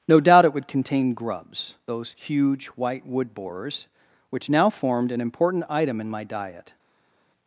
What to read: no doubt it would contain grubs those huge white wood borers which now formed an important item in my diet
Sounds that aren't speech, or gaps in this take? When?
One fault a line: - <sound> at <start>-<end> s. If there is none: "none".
none